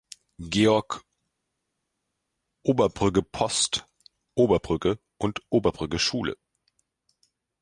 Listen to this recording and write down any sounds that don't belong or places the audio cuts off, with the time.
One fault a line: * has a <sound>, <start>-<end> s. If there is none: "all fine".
all fine